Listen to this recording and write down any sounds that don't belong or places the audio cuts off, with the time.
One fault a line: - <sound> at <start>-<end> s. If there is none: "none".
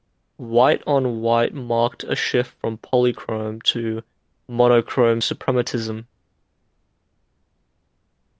none